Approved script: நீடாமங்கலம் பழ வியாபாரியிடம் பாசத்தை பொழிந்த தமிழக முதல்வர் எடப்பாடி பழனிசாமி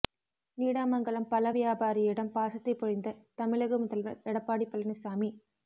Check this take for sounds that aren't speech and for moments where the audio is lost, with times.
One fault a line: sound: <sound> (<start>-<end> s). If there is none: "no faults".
no faults